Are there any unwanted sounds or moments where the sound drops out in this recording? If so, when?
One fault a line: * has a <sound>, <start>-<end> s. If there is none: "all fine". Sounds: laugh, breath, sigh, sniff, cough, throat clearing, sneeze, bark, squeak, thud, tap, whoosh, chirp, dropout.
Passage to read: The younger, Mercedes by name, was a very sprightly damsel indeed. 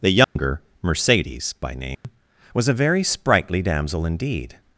* has a dropout, 0.2-0.4 s
* has a dropout, 1.9-2.0 s